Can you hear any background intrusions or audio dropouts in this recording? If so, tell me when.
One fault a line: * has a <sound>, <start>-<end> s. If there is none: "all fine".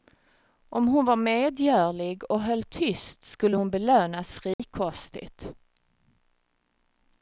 * has a dropout, 4.5-4.6 s